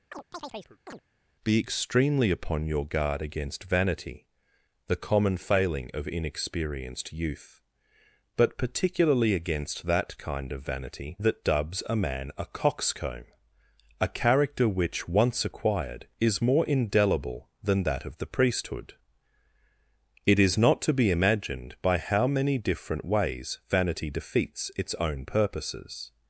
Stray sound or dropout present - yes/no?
yes